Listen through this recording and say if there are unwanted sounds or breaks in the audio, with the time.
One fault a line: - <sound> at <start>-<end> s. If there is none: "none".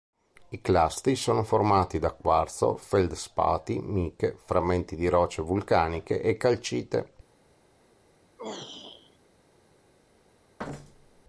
- throat clearing at 8.4-9.2 s
- thud at 10.6-11.2 s